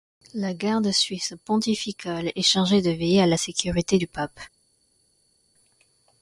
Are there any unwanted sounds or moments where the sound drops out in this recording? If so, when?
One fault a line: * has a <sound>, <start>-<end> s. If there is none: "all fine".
all fine